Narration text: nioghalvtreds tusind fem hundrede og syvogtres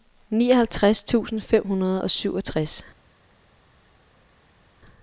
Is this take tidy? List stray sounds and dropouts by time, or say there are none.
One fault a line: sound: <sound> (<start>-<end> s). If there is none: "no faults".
no faults